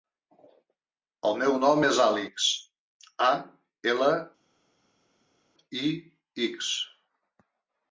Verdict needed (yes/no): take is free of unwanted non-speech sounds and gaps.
yes